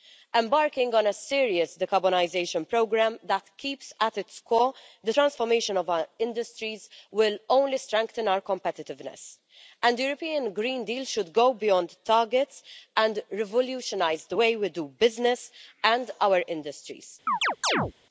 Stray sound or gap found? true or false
true